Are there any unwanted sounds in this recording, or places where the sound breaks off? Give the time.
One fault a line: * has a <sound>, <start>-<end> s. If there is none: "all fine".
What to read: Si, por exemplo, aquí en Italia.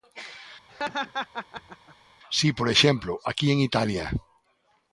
* has a laugh, 0.7-2.0 s